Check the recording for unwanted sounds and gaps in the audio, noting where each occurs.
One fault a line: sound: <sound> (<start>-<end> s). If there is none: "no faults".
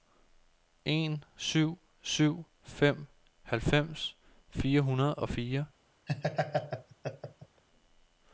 sound: laugh (6.1-7.6 s)